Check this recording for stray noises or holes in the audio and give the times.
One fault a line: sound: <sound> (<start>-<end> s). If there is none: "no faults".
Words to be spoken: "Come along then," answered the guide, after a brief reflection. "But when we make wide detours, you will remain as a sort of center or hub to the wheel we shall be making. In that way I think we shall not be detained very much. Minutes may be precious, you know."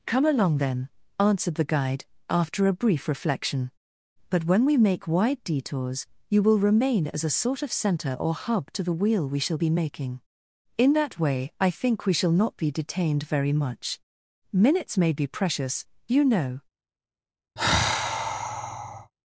sound: sigh (17.6-19.1 s)